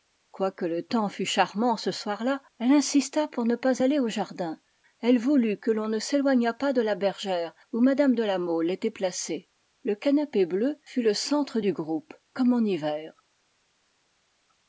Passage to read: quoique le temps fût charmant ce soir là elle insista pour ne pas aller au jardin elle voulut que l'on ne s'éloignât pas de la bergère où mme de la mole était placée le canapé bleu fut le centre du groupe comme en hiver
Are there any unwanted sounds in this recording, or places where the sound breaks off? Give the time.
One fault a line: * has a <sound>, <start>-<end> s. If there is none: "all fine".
all fine